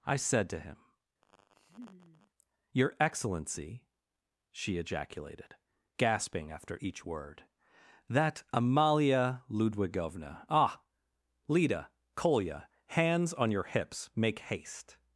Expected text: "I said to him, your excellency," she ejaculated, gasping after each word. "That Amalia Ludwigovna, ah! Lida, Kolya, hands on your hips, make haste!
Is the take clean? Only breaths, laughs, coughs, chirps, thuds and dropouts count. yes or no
no